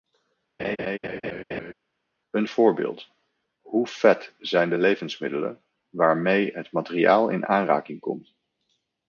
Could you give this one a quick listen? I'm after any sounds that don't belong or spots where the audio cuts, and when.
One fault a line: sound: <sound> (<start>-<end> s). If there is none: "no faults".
sound: laugh (0.6-1.7 s)